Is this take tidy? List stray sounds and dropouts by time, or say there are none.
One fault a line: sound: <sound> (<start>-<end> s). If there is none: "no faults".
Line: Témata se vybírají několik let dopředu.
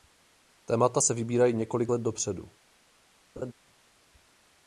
sound: laugh (3.4-3.5 s)